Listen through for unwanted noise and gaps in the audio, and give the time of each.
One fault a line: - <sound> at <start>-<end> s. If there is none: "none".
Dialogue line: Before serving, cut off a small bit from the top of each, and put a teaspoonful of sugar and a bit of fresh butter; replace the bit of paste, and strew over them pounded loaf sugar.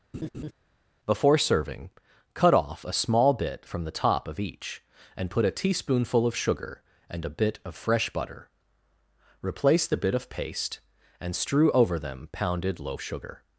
- laugh at 0.1-0.5 s